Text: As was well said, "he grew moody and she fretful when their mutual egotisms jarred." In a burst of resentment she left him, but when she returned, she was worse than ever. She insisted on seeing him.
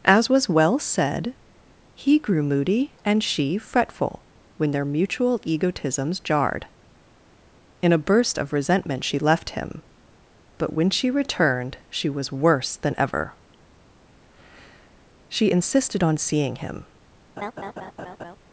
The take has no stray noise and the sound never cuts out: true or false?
false